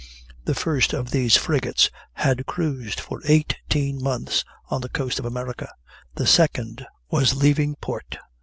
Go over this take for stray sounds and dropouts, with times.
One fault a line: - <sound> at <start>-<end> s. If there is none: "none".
none